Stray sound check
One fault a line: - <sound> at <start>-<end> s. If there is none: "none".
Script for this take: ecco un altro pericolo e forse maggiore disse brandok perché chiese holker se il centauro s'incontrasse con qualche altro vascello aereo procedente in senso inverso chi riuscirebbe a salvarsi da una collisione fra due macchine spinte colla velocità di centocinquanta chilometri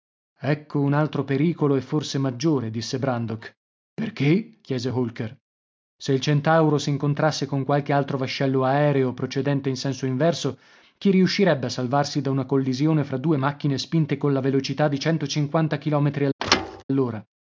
- thud at 16.4-16.8 s